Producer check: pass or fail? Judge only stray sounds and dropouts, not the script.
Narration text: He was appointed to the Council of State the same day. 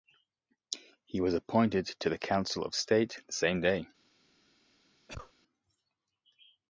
fail